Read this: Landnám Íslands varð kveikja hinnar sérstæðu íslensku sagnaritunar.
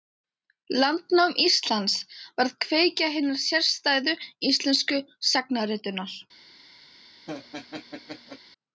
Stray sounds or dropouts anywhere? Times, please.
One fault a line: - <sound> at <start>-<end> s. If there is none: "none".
- laugh at 7.3-8.4 s